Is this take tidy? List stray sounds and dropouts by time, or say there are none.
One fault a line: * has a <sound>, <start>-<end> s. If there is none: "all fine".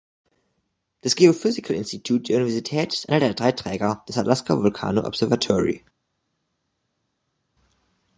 all fine